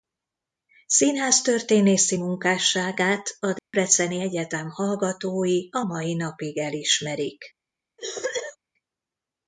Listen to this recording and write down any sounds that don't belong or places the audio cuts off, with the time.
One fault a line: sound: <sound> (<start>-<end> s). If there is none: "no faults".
sound: dropout (3.6-3.7 s)
sound: cough (8.0-8.6 s)